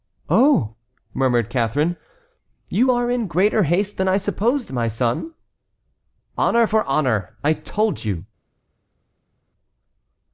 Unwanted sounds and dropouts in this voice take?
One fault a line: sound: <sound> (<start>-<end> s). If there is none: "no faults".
no faults